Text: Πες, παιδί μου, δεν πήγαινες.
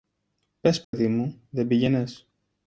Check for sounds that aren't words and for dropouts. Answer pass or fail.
fail